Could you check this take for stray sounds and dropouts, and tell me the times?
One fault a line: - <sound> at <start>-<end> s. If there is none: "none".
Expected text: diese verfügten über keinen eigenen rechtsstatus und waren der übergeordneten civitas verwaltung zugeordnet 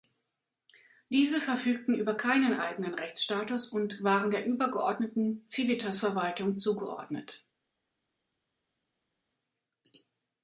none